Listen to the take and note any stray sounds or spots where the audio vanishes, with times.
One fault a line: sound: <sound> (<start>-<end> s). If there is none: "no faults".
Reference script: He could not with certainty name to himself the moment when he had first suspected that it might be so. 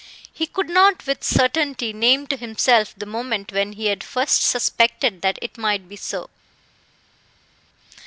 no faults